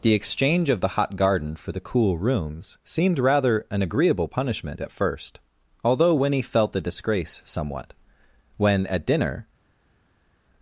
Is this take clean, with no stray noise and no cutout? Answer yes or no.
yes